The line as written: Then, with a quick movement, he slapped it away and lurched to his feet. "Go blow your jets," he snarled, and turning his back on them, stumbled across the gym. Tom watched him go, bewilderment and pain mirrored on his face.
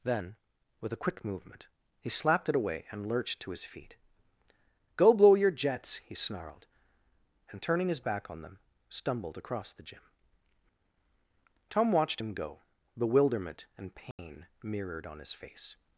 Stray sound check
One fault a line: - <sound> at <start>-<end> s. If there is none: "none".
- dropout at 14.1-14.2 s